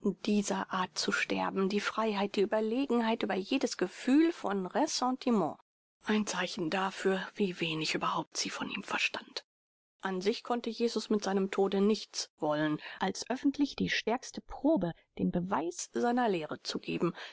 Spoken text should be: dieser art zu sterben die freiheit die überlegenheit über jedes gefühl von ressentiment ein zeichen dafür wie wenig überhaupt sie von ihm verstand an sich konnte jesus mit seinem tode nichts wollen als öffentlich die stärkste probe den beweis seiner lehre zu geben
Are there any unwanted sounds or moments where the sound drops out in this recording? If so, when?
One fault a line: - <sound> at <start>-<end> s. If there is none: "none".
none